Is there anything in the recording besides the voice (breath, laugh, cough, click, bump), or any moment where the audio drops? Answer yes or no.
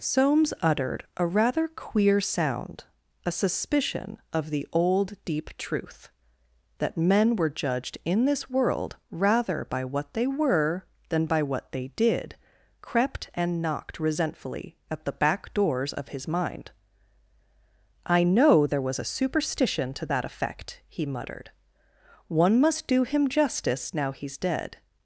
no